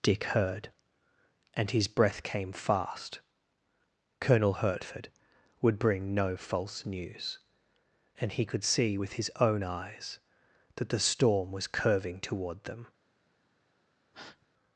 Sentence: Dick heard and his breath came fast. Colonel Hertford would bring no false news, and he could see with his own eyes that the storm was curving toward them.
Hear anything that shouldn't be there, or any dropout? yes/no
yes